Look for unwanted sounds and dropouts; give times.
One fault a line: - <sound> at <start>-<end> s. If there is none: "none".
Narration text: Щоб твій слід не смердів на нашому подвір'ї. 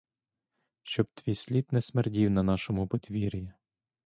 none